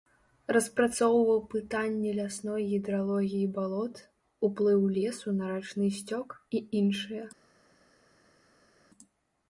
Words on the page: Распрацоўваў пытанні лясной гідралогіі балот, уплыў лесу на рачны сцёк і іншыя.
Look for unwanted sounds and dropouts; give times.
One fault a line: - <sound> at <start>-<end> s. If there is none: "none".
none